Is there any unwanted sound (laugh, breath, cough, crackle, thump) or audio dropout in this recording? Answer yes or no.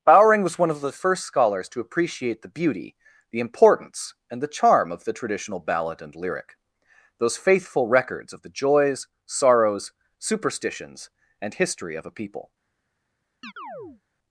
yes